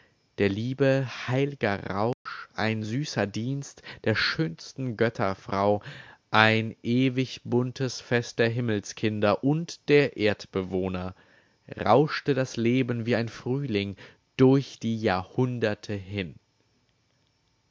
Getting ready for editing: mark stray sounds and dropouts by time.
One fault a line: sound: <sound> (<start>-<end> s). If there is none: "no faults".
sound: dropout (2.1-2.3 s)